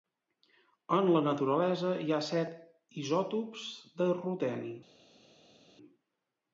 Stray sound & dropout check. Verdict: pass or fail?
pass